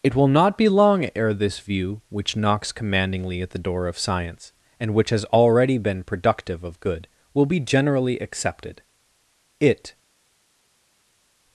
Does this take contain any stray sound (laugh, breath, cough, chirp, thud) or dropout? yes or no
no